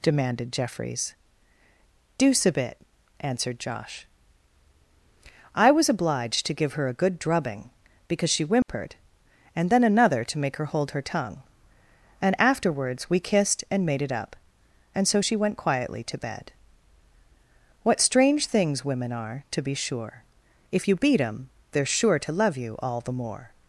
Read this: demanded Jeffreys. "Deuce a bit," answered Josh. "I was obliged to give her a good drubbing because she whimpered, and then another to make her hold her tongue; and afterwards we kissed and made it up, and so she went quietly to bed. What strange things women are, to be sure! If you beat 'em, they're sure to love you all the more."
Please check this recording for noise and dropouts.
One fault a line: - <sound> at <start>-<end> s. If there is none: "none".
- dropout at 8.6-8.7 s